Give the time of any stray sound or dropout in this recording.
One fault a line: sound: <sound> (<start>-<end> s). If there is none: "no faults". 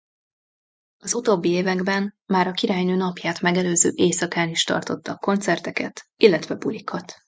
no faults